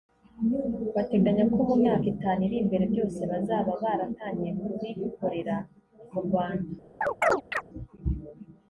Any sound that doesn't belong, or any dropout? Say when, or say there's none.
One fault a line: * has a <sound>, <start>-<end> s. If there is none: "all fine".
* has a chirp, 7.0-7.6 s